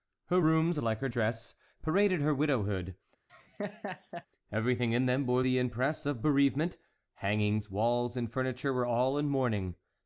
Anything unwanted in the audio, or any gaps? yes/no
yes